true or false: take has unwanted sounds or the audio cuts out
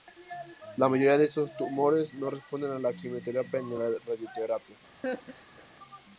true